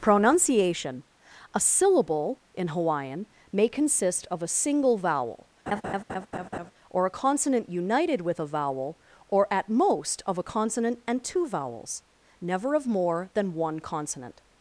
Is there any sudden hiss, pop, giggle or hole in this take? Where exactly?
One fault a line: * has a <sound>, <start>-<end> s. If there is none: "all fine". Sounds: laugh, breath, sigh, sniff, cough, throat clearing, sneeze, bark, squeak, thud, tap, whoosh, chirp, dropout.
* has a laugh, 5.7-6.7 s